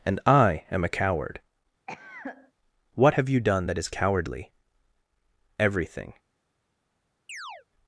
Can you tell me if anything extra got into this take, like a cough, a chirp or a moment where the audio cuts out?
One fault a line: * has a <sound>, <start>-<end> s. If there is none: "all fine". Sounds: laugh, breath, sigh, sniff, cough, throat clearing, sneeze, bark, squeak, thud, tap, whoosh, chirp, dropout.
* has a cough, 1.9-2.5 s
* has a chirp, 7.3-7.7 s